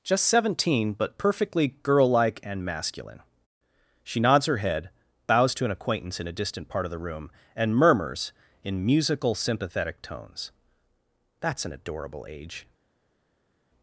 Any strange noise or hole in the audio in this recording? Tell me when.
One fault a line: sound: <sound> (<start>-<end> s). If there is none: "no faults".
no faults